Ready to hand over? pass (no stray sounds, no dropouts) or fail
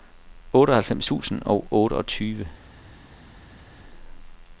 pass